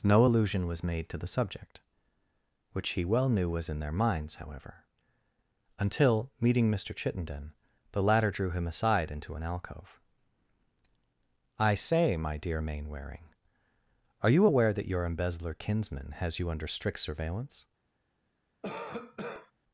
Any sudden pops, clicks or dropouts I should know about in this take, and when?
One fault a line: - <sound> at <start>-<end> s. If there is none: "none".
- cough at 18.6-19.5 s